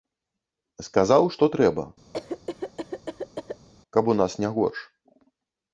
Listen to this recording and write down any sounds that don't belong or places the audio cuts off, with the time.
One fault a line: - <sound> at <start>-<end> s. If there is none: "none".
- cough at 2.1-3.7 s